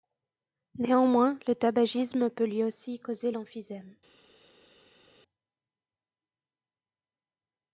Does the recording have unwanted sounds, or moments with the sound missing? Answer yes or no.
no